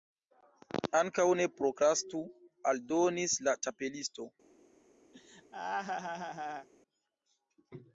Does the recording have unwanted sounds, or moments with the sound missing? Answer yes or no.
yes